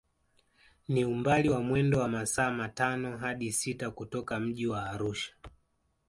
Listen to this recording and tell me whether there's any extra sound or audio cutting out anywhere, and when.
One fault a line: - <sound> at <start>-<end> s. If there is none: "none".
none